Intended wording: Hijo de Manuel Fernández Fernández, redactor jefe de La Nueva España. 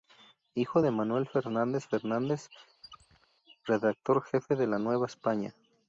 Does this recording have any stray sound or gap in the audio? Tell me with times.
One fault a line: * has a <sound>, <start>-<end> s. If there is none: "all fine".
* has a squeak, 2.8-3.3 s